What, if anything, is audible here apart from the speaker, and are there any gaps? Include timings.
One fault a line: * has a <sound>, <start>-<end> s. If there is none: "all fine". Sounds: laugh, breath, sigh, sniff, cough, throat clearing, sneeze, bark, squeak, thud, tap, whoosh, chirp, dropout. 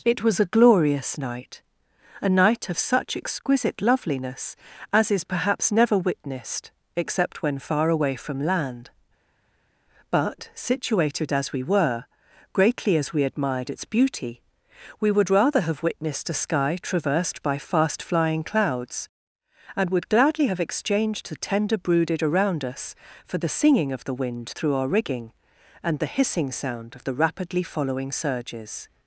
all fine